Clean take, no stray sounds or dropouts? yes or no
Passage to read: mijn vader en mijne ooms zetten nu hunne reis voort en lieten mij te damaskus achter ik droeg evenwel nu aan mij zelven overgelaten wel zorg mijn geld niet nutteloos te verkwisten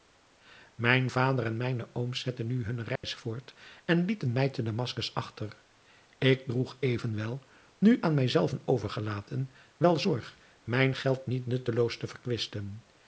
no